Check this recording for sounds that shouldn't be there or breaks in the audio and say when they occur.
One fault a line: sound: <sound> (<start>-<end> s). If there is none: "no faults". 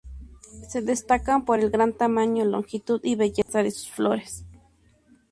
sound: dropout (3.4-3.5 s)